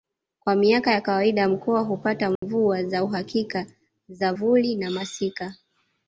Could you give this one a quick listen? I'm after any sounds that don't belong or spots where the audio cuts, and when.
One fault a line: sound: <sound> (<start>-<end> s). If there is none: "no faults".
sound: dropout (2.4-2.4 s)